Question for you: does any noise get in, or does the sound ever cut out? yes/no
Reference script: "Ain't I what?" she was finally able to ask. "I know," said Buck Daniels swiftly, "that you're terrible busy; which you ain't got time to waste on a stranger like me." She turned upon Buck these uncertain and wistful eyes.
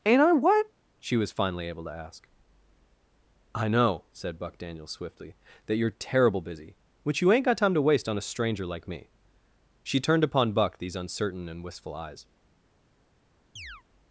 yes